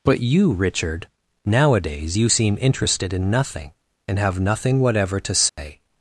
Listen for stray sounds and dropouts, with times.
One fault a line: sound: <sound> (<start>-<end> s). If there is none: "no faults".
sound: dropout (5.5-5.6 s)